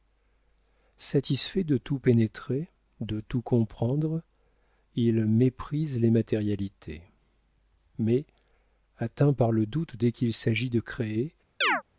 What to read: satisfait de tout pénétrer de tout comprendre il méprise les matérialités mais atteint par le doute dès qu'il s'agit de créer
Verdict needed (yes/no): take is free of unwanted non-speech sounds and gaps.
no